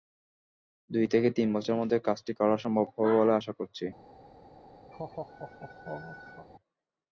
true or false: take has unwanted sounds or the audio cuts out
true